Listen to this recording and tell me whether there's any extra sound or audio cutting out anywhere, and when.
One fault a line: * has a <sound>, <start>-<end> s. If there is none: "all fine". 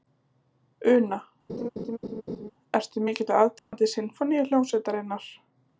* has a laugh, 1.5-2.5 s
* has a dropout, 3.6-3.7 s